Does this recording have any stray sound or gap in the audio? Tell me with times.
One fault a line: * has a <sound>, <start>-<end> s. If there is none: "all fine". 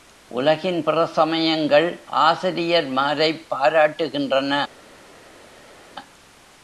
all fine